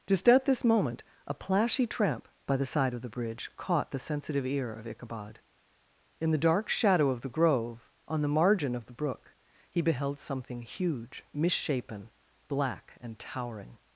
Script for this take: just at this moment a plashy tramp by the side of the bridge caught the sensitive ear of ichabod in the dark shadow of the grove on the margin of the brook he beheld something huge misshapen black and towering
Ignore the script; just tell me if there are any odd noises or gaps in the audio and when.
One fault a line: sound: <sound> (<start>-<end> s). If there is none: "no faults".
no faults